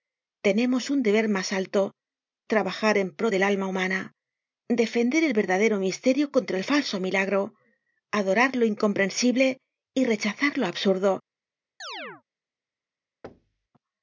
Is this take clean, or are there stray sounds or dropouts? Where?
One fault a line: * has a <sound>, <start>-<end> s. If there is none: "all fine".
* has a chirp, 11.8-12.2 s
* has a thud, 13.2-13.7 s